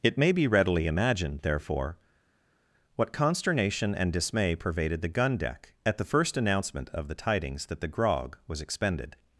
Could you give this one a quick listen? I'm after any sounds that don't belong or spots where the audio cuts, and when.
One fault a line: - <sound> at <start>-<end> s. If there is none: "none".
none